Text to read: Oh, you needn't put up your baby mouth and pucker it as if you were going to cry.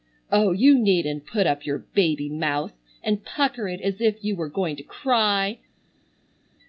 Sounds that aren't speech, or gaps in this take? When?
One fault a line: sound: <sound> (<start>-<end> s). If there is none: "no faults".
no faults